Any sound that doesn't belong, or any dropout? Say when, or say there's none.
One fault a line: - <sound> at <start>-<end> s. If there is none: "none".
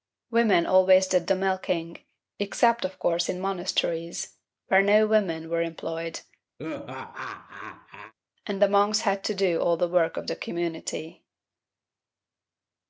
- laugh at 6.6-8.1 s